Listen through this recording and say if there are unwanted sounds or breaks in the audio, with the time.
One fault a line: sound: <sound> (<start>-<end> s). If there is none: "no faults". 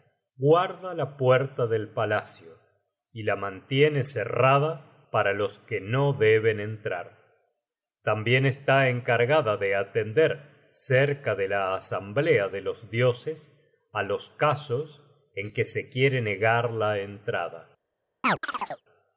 sound: chirp (18.2-18.8 s)